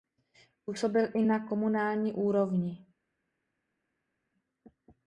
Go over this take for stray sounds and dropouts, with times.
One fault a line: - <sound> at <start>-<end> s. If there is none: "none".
none